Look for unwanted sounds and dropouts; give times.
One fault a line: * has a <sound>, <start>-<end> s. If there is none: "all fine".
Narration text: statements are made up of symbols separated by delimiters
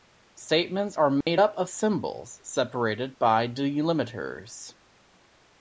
* has a dropout, 1.2-1.3 s